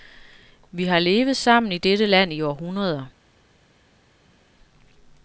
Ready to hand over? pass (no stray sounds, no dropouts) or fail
pass